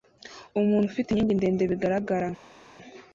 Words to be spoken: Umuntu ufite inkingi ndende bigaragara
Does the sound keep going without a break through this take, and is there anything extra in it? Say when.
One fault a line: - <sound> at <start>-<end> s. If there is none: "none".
none